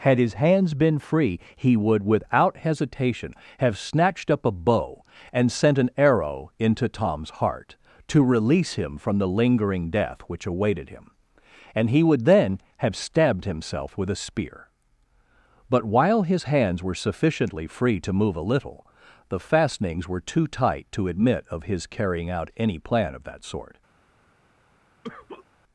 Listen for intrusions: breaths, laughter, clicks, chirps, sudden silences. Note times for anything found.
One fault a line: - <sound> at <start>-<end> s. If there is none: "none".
- cough at 25.0-25.5 s